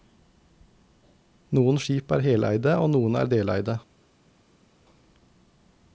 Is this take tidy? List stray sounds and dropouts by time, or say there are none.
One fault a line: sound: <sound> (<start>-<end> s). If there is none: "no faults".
no faults